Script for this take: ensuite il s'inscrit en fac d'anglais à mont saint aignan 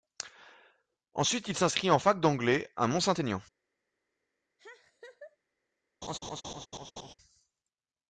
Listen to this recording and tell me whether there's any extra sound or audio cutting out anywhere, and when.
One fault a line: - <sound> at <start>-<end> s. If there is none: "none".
- laugh at 4.6-5.4 s
- laugh at 6.0-7.1 s